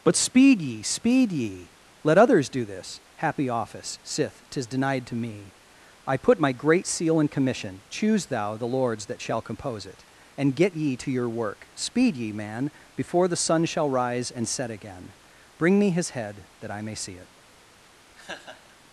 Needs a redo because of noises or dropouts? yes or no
yes